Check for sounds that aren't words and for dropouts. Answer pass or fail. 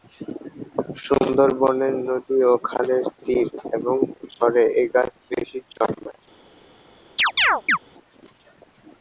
fail